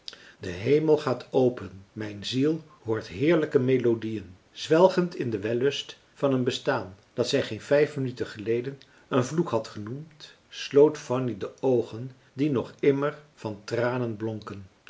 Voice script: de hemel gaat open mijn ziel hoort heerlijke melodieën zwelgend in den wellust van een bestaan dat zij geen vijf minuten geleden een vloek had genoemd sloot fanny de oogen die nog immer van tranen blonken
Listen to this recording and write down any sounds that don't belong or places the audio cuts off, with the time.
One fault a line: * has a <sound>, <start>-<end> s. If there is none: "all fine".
all fine